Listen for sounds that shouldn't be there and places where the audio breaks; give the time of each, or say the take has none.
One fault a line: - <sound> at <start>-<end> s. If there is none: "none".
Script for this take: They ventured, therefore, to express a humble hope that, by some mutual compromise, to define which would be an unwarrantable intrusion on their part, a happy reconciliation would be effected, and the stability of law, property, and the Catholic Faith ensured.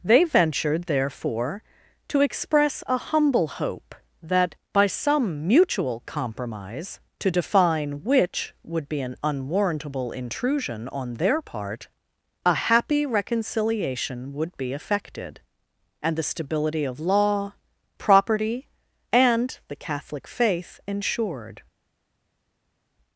none